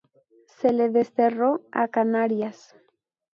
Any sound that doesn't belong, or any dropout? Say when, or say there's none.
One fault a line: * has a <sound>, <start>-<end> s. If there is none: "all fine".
all fine